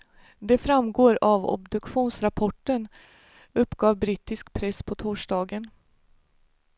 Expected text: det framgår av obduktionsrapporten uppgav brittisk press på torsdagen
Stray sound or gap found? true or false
false